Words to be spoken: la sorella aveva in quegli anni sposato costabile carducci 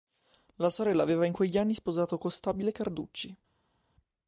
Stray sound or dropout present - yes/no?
no